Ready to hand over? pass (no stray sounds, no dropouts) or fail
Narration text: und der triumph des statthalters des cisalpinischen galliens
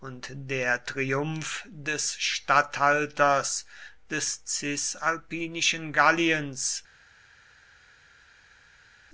pass